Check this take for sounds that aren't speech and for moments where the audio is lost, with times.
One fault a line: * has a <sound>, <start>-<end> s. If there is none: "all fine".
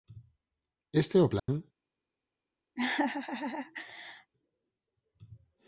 * has a dropout, 1.4-1.5 s
* has a laugh, 2.8-4.3 s